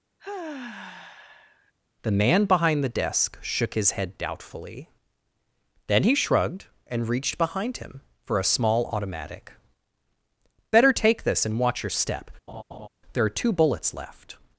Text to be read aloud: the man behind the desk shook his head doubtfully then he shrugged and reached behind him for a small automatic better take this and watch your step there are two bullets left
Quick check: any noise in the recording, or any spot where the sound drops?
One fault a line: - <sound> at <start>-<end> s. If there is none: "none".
- sigh at 0.2-1.7 s
- laugh at 12.5-12.9 s